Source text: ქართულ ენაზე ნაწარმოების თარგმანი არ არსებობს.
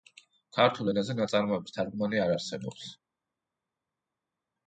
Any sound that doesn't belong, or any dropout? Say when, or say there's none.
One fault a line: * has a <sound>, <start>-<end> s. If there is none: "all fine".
all fine